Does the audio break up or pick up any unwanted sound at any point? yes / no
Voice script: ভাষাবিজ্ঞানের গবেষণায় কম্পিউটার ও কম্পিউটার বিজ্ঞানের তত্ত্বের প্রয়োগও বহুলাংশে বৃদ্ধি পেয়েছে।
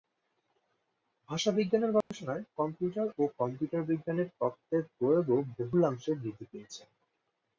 yes